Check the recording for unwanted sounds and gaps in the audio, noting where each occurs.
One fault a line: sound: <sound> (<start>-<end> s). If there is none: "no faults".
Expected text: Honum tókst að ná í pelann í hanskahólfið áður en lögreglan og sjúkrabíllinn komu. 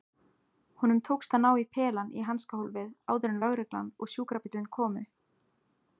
no faults